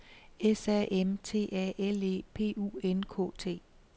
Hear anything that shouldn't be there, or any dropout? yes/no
no